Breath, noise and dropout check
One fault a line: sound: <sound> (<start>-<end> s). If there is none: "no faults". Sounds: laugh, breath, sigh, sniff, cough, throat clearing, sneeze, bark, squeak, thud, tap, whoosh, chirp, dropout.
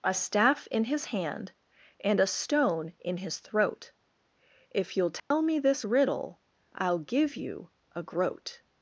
sound: dropout (5.2-5.3 s)